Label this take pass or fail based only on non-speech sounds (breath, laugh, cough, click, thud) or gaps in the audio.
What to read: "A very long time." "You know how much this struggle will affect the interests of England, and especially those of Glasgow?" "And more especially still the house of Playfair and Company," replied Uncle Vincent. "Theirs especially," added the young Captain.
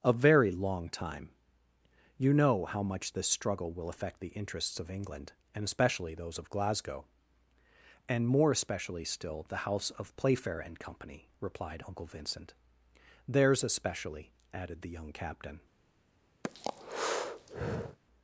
fail